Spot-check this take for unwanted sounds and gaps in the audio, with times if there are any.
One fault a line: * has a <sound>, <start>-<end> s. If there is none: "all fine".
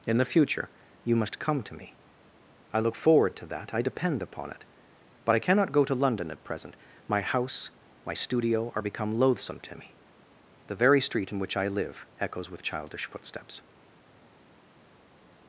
all fine